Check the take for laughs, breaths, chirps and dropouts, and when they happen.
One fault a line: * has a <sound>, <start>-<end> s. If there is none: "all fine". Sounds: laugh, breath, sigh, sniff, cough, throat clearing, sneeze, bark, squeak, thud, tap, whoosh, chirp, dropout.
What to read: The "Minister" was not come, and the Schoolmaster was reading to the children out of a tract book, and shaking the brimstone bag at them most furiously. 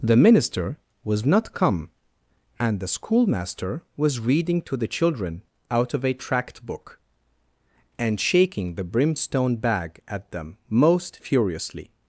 all fine